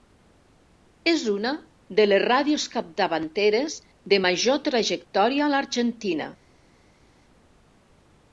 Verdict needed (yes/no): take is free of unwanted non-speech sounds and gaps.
yes